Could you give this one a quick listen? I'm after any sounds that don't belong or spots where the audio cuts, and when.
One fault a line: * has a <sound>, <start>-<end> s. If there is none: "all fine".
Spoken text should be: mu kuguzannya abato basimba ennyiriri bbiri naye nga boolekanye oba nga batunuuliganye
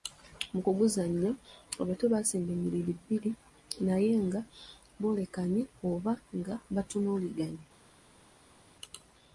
all fine